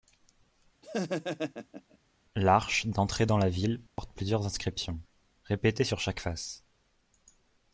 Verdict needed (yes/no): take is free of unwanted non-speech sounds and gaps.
no